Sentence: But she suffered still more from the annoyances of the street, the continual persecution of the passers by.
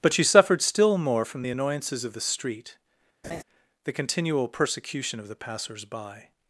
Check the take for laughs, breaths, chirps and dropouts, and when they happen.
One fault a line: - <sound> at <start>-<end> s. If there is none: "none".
- laugh at 3.2-3.4 s